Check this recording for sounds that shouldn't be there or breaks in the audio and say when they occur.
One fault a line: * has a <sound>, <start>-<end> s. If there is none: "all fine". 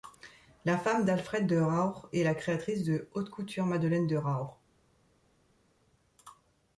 all fine